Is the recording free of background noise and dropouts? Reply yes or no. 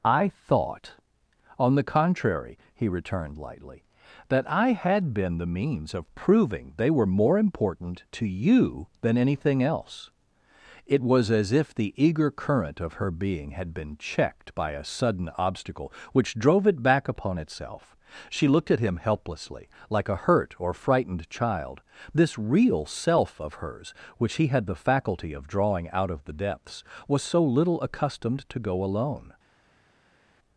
yes